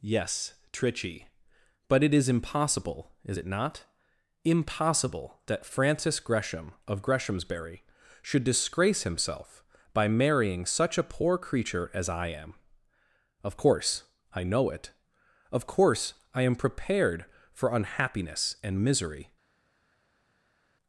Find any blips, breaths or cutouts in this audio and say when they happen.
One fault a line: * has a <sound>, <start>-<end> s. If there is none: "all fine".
all fine